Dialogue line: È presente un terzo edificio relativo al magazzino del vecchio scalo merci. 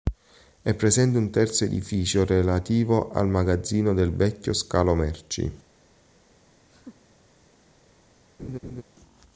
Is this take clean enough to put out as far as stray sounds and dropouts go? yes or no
no